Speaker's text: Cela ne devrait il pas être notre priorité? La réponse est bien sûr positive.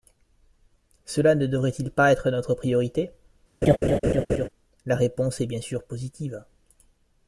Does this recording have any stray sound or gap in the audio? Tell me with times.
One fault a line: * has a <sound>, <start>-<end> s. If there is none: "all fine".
* has a laugh, 3.6-4.5 s